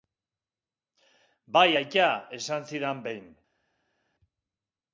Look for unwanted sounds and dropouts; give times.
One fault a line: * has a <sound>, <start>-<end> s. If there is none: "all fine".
all fine